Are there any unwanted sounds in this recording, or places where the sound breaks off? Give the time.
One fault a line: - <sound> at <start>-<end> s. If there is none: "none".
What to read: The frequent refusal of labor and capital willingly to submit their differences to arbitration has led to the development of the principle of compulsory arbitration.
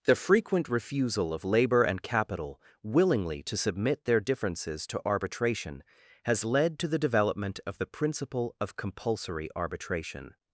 none